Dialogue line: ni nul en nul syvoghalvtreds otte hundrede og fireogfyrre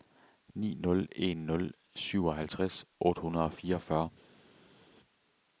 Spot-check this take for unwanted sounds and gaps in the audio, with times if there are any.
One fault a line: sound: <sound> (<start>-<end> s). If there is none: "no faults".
no faults